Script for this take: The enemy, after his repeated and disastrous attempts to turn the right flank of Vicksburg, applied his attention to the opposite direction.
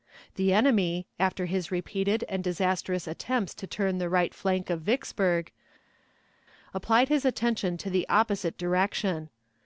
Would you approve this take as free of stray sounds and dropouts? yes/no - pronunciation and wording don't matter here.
yes